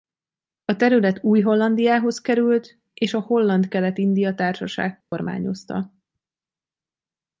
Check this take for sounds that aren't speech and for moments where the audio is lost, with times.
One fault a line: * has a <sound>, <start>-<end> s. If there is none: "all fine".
* has a dropout, 5.0-5.1 s